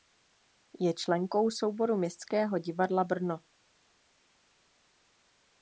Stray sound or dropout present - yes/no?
no